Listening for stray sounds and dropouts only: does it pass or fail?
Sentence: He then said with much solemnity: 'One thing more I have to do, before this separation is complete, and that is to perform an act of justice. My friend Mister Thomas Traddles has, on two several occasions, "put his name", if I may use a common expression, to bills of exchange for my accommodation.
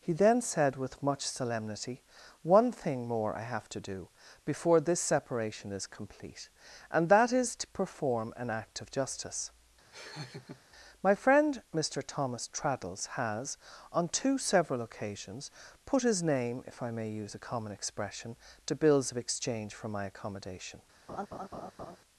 fail